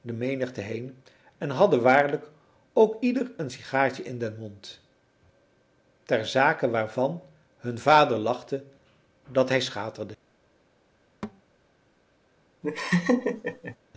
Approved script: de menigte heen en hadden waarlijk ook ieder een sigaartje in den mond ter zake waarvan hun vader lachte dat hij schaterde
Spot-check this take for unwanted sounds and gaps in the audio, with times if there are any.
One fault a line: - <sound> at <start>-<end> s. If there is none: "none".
- thud at 11.2-11.4 s
- laugh at 12.6-13.8 s